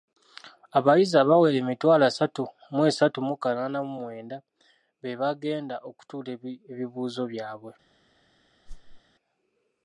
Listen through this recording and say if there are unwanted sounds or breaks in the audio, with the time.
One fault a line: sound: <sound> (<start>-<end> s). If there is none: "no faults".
sound: whoosh (8.7-9.0 s)